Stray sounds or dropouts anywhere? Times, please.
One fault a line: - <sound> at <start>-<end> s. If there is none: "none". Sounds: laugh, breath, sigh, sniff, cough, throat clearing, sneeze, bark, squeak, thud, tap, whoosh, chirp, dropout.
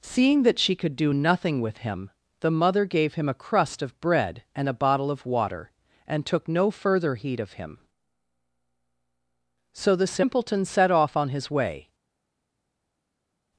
none